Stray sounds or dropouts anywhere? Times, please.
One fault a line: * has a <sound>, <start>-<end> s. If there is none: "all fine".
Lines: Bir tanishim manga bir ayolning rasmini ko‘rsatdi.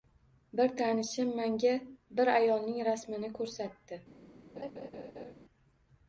* has a laugh, 4.6-5.3 s